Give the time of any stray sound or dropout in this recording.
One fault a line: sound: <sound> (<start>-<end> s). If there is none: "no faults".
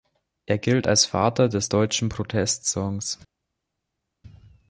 no faults